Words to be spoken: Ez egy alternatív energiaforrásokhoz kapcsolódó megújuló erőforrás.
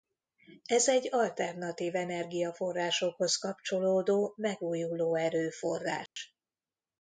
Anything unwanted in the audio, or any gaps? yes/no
yes